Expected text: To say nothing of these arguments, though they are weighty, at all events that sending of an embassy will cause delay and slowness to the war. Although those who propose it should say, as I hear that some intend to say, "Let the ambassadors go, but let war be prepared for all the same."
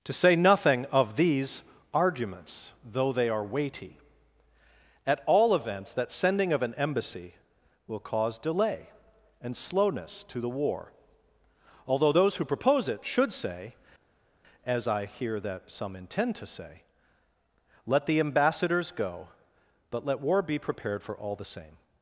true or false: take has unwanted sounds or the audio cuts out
false